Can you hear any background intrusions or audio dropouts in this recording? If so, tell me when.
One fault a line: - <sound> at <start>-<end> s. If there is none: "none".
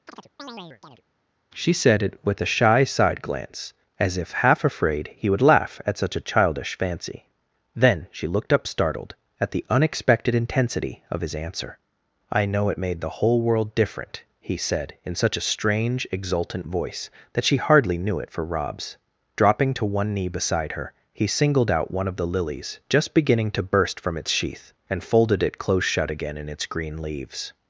- chirp at 0.1-1.0 s